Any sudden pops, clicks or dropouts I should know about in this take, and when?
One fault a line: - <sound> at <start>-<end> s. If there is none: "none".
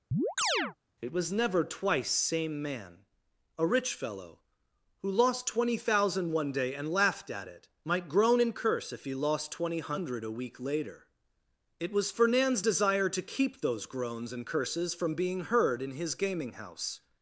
- chirp at 0.1-0.8 s